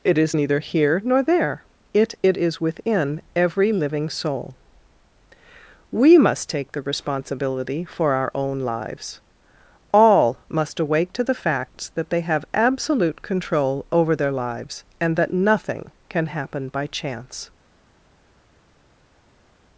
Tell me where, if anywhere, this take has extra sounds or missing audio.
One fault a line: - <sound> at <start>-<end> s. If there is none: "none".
none